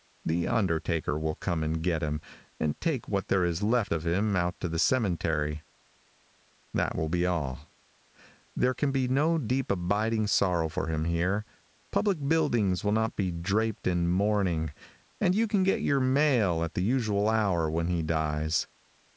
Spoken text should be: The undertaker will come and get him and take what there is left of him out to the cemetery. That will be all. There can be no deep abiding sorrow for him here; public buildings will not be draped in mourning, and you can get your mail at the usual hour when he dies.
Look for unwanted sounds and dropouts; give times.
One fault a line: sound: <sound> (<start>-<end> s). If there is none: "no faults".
no faults